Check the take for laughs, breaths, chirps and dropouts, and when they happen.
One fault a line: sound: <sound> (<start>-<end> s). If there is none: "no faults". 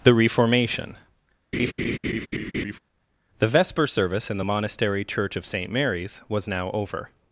sound: laugh (1.5-2.8 s)